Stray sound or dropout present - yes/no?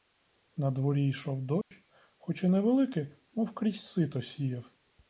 yes